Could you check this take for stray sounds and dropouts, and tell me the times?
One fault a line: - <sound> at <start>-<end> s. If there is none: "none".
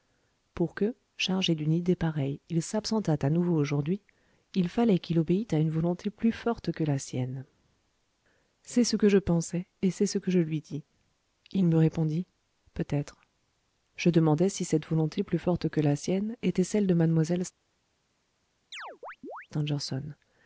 - chirp at 18.7-19.5 s